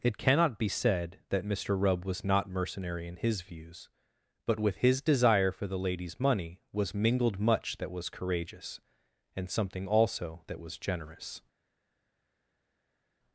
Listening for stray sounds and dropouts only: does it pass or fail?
pass